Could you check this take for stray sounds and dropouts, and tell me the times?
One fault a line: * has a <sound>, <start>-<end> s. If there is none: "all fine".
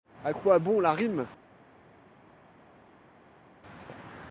all fine